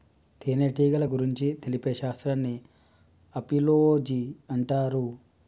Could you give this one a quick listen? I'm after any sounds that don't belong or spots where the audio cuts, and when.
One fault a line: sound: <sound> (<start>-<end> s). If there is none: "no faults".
no faults